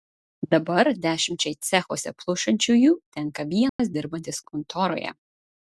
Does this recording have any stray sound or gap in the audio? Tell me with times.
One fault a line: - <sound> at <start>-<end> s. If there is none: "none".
- dropout at 3.7-3.8 s